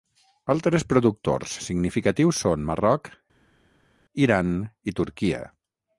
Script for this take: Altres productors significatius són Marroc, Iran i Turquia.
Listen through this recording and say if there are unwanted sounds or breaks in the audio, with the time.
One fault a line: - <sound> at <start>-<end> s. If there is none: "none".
none